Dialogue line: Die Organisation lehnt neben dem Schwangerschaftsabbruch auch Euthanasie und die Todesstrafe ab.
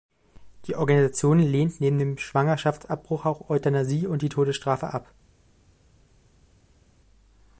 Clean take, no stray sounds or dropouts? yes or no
yes